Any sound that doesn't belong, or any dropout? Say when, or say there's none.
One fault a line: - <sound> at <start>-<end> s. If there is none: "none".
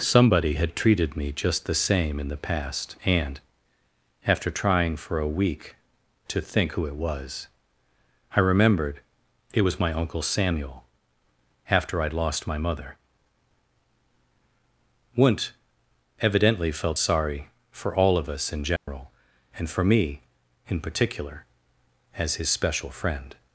- dropout at 18.8-18.9 s